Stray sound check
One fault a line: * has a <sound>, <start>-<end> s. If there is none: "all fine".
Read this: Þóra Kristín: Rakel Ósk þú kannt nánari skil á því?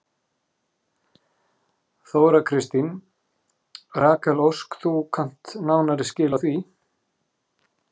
all fine